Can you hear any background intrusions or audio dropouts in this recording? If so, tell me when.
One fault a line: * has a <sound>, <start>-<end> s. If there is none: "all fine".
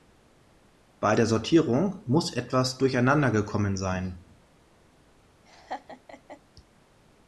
* has a laugh, 5.5-6.4 s